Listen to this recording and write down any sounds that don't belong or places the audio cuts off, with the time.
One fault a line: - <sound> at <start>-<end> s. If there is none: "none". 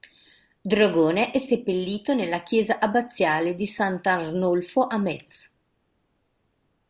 none